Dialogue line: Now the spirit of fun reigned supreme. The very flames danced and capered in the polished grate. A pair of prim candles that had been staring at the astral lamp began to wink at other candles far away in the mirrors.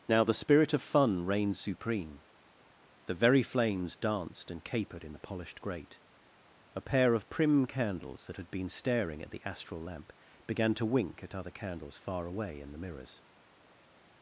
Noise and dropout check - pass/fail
pass